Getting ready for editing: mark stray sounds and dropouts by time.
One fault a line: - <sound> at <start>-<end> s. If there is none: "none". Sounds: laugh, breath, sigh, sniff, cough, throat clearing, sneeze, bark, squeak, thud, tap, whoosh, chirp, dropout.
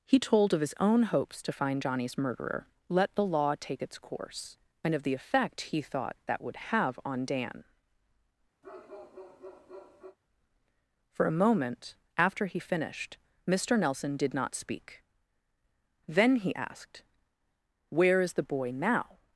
- bark at 8.6-10.2 s